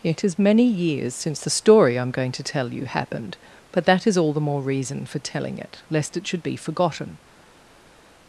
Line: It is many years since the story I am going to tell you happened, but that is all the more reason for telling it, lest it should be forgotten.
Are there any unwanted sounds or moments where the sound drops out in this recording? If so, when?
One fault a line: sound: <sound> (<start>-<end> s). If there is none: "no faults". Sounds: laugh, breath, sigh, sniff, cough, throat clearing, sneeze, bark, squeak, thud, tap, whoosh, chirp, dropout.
no faults